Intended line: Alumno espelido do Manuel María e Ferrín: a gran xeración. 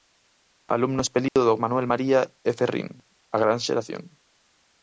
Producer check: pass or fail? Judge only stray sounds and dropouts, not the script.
fail